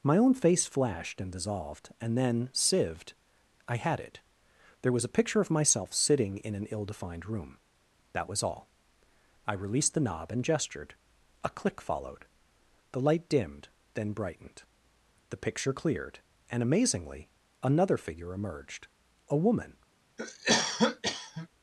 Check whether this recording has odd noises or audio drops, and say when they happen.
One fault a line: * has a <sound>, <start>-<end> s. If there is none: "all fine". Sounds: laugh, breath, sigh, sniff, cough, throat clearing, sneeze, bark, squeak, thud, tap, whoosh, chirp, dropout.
* has a cough, 20.2-21.5 s